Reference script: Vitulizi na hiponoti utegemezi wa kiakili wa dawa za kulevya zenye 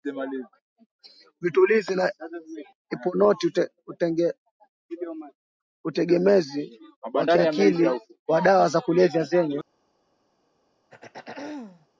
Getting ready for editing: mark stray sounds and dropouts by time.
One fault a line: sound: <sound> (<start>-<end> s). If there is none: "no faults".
sound: throat clearing (10.9-11.9 s)